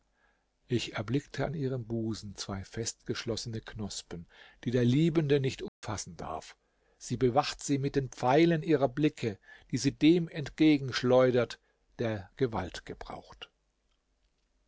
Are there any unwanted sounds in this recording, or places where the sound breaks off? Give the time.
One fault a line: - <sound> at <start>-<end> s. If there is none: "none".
- dropout at 5.7-5.8 s